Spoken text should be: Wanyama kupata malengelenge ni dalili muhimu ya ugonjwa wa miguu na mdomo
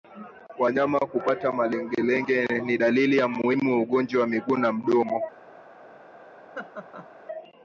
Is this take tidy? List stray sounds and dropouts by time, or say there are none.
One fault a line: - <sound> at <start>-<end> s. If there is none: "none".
- laugh at 6.5-7.1 s